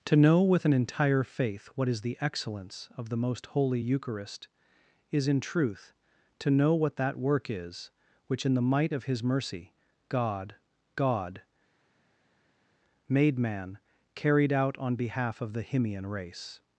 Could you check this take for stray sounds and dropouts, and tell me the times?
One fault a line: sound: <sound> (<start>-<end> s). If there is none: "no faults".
no faults